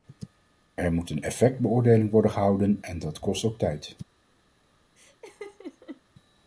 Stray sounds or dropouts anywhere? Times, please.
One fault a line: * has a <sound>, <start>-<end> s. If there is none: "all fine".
* has a laugh, 5.0-6.0 s